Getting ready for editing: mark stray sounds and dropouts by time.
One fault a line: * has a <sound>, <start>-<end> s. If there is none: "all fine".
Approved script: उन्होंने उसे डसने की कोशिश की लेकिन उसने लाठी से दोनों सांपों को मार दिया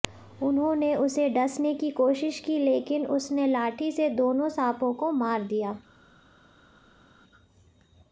all fine